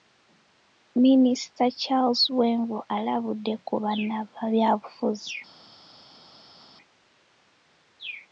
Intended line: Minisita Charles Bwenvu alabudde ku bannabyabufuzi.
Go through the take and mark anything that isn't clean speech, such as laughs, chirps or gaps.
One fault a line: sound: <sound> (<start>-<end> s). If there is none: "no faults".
no faults